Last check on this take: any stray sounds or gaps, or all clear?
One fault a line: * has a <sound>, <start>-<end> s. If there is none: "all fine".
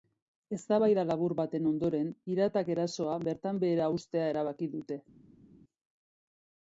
all fine